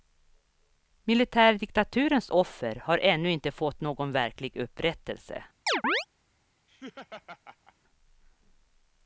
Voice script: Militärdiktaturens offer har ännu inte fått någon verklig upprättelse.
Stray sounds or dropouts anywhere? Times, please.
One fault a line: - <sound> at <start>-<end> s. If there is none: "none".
- chirp at 5.7-6.1 s
- laugh at 6.7-7.7 s